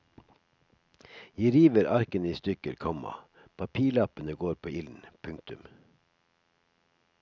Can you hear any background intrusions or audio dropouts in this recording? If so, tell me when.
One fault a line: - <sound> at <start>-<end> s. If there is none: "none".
none